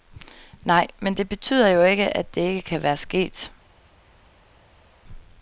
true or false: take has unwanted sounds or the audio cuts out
false